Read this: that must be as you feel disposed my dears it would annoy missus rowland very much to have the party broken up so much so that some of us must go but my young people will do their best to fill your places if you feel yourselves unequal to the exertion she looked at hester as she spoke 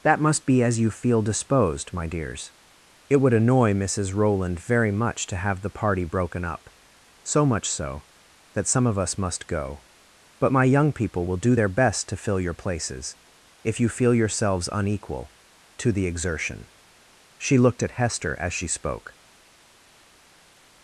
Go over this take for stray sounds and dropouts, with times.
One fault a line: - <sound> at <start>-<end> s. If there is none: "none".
none